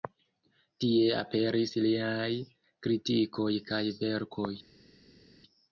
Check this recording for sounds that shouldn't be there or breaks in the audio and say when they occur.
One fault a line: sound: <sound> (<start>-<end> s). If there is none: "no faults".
no faults